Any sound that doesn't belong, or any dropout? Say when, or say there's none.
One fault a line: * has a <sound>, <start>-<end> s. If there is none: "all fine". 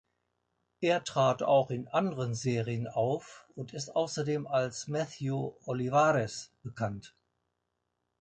all fine